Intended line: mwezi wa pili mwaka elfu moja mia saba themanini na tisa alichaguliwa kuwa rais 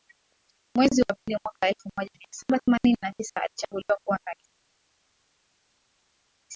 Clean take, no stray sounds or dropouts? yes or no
yes